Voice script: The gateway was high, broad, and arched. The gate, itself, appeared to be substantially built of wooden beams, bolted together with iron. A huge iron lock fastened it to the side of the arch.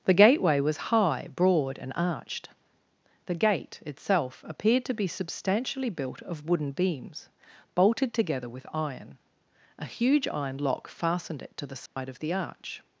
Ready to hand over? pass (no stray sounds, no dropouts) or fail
fail